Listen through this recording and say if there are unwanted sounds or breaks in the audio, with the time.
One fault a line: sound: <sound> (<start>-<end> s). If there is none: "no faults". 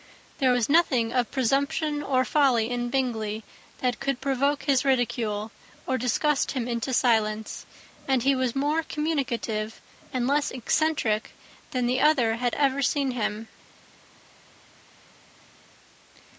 no faults